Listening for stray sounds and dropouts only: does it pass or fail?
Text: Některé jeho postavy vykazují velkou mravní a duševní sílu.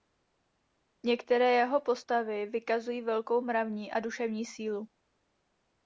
pass